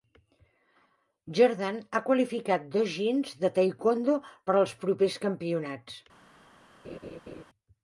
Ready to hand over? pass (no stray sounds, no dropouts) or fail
fail